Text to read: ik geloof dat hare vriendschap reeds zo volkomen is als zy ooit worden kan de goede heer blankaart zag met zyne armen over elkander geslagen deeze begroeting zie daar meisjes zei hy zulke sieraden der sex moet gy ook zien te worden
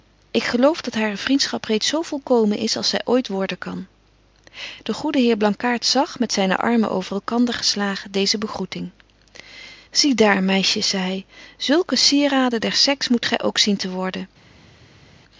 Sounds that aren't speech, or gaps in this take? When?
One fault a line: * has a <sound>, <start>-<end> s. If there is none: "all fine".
all fine